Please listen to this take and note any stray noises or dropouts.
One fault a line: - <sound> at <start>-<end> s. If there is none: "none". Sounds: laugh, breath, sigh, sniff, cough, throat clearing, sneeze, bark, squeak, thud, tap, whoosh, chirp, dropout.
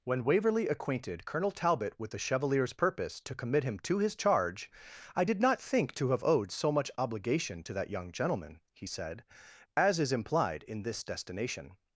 none